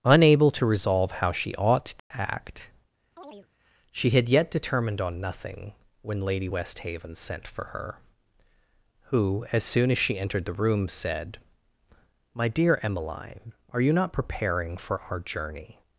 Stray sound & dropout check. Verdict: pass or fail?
fail